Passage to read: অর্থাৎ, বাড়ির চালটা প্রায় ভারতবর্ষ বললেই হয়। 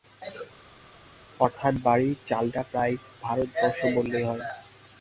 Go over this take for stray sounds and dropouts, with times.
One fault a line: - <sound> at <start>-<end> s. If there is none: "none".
none